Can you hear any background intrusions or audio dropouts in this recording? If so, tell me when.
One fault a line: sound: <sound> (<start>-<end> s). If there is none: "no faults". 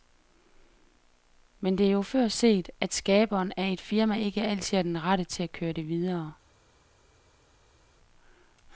no faults